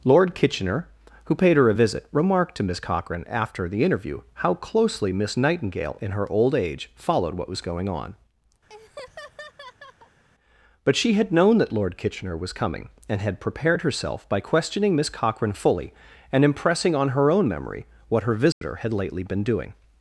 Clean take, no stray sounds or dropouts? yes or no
no